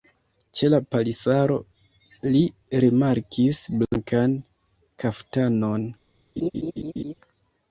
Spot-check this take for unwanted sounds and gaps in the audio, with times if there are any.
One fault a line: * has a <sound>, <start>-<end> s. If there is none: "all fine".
* has a laugh, 6.4-7.1 s